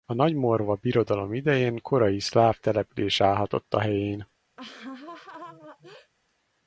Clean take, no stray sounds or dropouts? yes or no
no